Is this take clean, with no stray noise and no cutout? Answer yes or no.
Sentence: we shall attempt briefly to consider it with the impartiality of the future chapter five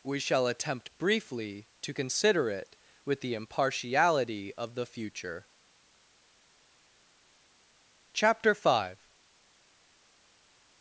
yes